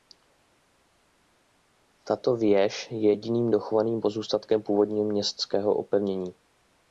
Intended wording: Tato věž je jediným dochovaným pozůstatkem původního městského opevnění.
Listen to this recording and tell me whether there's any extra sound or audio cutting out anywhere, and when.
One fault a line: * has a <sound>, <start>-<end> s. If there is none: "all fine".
all fine